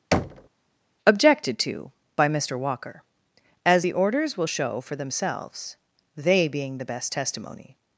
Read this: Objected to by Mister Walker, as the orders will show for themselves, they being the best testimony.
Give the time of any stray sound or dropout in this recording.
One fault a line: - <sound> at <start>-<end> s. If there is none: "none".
- thud at 0.1-0.5 s